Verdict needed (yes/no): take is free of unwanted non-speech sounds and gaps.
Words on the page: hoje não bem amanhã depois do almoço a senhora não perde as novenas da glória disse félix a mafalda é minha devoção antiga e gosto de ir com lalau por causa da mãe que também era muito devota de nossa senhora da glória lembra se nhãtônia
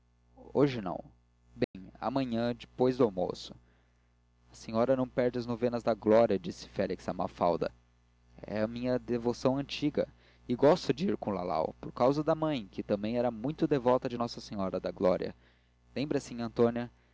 no